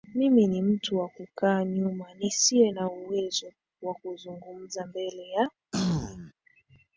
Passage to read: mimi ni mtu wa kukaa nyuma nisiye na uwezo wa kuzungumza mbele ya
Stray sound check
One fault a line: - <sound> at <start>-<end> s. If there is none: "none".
- throat clearing at 5.7-6.3 s